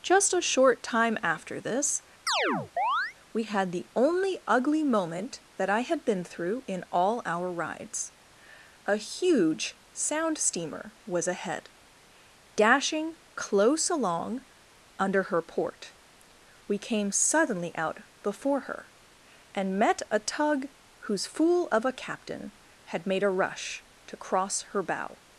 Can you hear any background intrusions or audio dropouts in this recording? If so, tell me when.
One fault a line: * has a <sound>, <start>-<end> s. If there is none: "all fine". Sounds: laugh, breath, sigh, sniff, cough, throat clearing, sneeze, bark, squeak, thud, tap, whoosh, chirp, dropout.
* has a chirp, 2.3-3.1 s